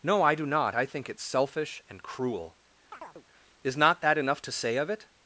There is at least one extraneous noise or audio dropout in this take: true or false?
true